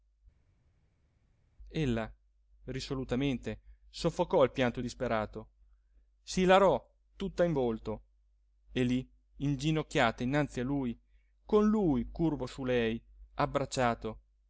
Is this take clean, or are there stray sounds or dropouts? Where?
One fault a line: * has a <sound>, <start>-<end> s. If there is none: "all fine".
all fine